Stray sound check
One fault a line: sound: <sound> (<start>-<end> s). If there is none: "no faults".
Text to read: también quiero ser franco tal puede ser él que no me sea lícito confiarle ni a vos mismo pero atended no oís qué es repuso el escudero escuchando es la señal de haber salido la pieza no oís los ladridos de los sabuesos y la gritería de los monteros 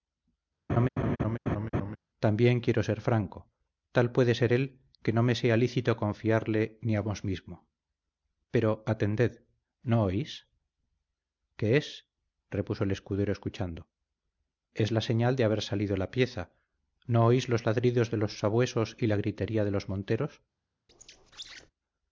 sound: laugh (0.7-2.0 s)
sound: squeak (20.9-21.7 s)